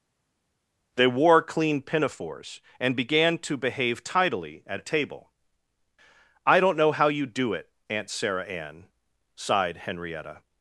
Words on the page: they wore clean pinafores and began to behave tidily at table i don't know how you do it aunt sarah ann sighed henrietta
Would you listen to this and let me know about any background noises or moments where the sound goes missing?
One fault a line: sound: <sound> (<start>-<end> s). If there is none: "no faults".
no faults